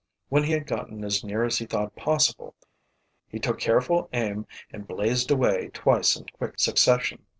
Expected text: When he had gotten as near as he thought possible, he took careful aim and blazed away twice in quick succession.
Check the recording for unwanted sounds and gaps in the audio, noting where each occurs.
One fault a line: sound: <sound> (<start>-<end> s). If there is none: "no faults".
no faults